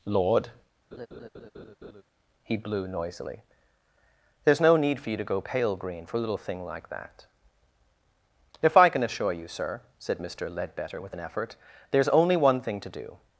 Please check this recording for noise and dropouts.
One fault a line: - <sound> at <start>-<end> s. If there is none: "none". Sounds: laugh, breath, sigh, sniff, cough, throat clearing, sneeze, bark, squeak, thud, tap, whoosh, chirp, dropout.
- laugh at 0.9-2.0 s